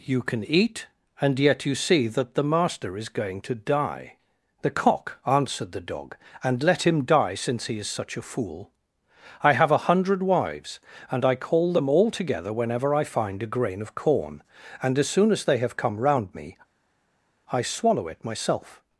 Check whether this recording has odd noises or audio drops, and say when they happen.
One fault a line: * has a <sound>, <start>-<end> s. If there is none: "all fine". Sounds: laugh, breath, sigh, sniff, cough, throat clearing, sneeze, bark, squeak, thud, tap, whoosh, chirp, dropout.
all fine